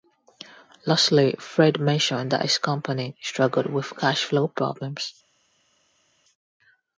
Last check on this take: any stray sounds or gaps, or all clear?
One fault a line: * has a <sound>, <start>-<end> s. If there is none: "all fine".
all fine